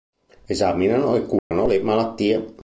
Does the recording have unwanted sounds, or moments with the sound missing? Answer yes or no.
yes